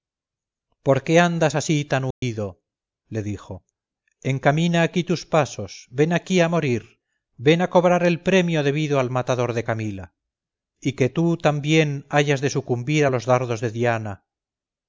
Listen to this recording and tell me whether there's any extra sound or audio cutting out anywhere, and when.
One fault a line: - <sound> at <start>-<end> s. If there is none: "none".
- dropout at 2.1-2.2 s